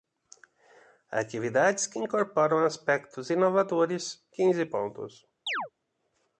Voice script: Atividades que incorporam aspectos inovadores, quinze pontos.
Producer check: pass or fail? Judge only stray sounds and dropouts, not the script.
fail